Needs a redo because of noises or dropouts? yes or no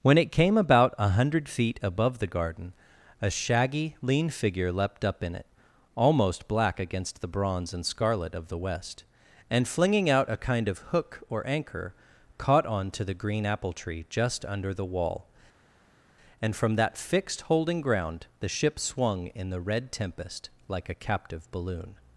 no